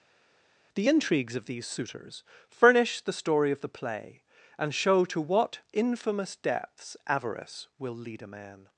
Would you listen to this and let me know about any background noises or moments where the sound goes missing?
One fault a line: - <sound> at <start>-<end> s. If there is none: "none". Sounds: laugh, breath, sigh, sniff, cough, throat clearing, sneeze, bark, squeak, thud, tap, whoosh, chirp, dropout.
none